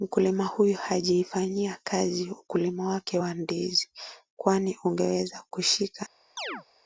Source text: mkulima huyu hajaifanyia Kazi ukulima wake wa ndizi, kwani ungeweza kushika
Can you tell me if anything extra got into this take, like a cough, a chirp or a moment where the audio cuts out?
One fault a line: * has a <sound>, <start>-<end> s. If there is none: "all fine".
* has a chirp, 6.4-6.6 s